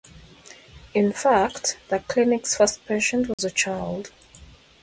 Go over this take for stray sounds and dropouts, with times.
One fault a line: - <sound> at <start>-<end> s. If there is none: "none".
- dropout at 3.3-3.4 s